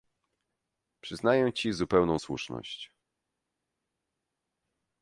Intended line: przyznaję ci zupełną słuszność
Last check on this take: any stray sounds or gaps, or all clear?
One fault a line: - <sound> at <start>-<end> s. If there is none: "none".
none